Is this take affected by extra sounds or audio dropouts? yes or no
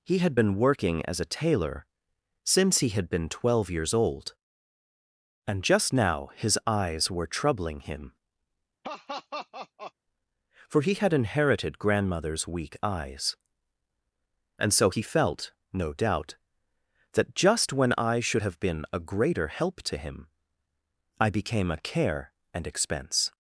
yes